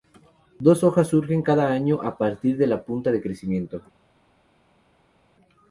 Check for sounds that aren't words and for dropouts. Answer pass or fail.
pass